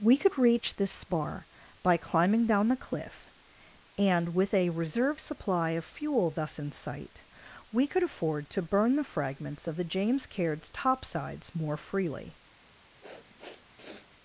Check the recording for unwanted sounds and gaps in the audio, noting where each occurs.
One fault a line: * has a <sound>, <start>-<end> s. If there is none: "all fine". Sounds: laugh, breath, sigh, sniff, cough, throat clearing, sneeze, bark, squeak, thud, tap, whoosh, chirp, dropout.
* has a sniff, 13.0-14.1 s